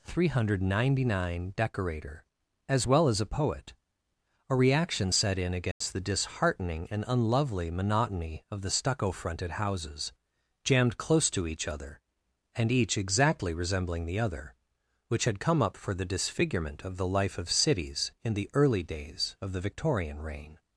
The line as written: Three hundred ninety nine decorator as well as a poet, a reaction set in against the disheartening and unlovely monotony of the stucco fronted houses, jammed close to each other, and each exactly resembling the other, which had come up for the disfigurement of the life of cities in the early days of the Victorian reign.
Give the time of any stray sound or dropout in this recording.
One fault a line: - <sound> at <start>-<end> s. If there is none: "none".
- dropout at 5.7-5.8 s